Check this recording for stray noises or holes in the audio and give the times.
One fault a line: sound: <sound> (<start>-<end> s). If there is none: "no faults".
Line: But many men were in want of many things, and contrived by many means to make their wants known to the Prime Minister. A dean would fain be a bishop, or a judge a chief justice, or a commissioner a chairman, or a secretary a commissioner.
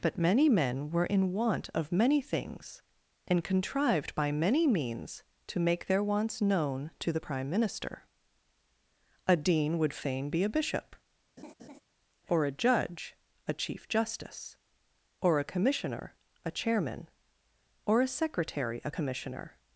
sound: laugh (11.4-11.8 s)